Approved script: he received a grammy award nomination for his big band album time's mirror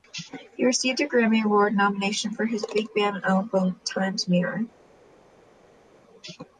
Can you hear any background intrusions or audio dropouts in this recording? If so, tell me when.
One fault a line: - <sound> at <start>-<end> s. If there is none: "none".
none